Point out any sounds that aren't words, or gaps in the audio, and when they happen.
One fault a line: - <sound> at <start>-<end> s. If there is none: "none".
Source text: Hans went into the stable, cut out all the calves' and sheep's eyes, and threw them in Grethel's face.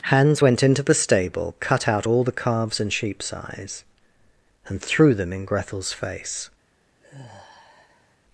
- sigh at 7.0-8.2 s